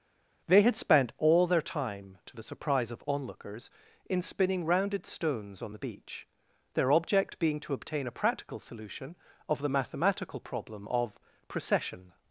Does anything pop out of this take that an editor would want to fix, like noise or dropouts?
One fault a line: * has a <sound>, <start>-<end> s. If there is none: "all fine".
all fine